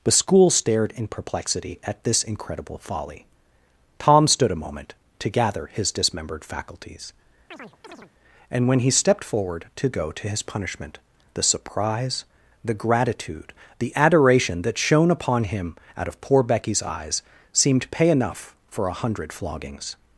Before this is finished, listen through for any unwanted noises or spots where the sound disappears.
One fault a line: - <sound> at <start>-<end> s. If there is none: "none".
- chirp at 7.5-8.1 s